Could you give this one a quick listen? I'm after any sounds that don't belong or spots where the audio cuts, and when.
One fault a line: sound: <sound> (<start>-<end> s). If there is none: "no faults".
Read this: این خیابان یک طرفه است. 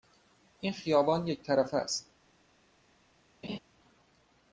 sound: laugh (3.4-3.6 s)